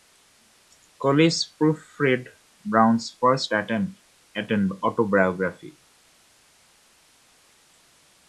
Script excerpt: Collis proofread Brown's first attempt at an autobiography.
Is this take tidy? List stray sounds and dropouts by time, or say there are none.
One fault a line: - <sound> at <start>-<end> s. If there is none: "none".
none